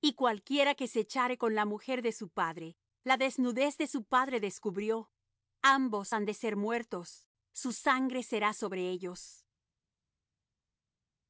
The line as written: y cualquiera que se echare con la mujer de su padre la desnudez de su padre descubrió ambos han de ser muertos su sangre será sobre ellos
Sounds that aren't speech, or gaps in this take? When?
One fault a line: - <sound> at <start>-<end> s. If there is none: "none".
none